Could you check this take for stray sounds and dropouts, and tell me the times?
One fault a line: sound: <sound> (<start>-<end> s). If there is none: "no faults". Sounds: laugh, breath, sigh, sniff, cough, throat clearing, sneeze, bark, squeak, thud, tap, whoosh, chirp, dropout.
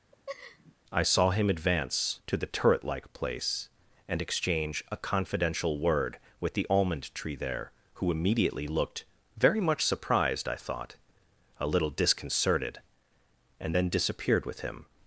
sound: laugh (0.1-0.8 s)